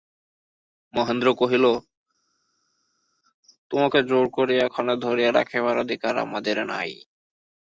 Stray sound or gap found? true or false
false